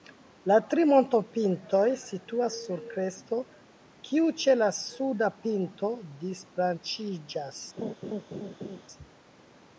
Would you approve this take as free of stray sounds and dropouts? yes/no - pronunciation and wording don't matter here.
no